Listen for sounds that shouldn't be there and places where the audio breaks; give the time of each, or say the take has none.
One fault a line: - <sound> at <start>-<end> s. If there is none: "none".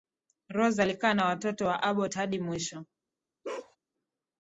- bark at 3.4-3.8 s